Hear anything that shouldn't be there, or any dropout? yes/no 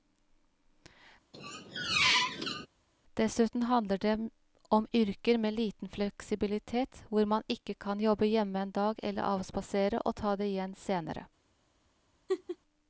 yes